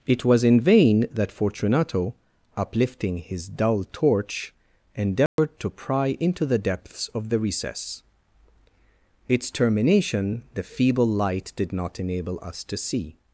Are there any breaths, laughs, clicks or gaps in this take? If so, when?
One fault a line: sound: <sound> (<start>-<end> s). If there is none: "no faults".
sound: dropout (5.3-5.4 s)